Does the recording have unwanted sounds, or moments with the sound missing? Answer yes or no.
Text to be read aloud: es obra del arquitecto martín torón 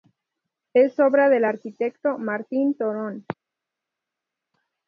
no